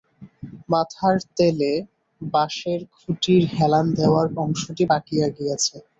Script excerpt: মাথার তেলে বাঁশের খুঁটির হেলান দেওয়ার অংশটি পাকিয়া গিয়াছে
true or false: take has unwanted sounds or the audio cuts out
false